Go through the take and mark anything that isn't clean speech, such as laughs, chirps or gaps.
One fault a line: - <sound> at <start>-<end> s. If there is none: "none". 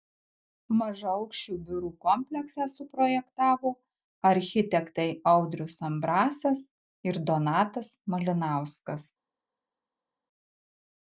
none